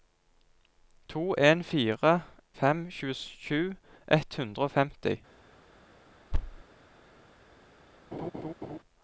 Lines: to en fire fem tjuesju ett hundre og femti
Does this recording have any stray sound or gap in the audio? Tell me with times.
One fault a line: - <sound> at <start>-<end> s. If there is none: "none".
- thud at 6.3-6.6 s
- laugh at 8.1-8.8 s